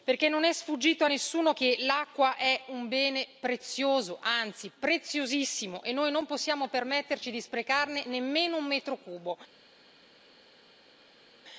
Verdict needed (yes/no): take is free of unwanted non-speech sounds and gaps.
yes